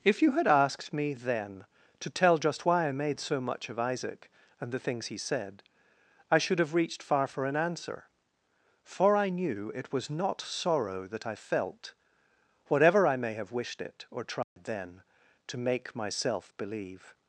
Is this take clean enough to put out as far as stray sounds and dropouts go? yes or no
no